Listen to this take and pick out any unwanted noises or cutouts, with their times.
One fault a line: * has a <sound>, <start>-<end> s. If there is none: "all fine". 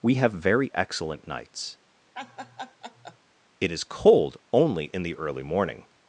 * has a laugh, 2.1-3.2 s